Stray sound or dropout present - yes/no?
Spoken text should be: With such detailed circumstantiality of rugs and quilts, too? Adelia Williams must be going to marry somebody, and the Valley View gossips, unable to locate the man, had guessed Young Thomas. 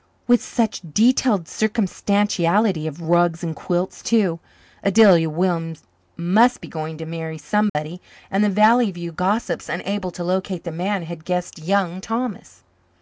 yes